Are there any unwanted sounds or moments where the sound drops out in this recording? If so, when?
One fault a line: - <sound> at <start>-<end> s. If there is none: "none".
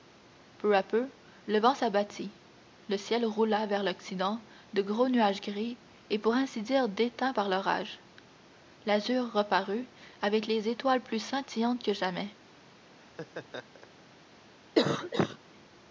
- laugh at 13.0-14.0 s
- cough at 14.7-15.4 s